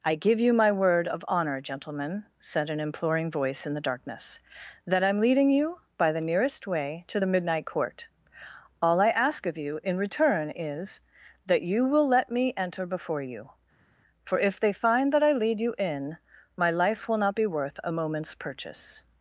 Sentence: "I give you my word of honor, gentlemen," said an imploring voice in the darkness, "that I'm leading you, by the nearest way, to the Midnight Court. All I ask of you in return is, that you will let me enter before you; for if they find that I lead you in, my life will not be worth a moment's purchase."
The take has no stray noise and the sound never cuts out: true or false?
true